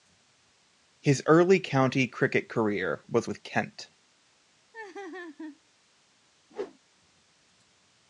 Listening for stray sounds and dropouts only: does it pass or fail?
fail